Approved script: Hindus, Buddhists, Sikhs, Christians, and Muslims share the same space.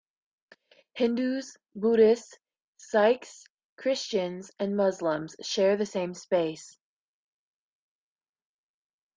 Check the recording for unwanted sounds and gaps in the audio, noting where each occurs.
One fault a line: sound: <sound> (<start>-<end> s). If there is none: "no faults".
no faults